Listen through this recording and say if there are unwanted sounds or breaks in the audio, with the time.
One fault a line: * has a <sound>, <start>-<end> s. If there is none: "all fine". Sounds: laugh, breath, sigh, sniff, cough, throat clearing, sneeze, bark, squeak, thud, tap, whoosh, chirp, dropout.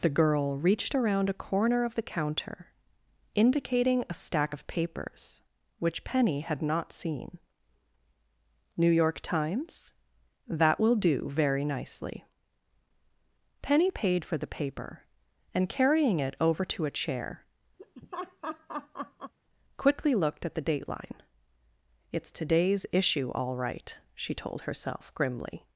* has a laugh, 17.8-19.3 s